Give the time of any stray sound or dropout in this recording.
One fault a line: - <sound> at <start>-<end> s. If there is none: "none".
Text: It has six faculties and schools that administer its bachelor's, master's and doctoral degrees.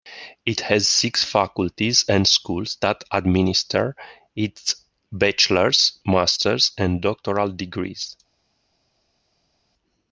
none